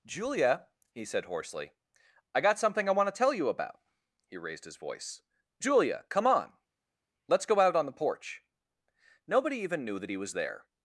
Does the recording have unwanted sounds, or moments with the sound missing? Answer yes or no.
no